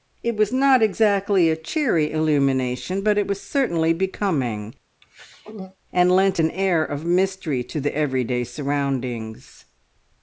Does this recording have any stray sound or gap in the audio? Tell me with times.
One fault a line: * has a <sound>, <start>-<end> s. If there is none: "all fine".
* has a throat clearing, 5.0-5.8 s